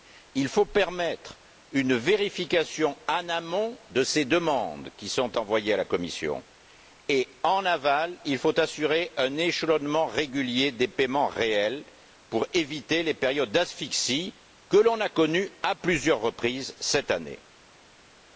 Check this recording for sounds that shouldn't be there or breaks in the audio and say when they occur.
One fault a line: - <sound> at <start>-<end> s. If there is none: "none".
none